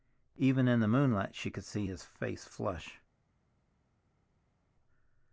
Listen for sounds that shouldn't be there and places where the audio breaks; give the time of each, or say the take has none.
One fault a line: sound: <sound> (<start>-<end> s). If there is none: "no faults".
no faults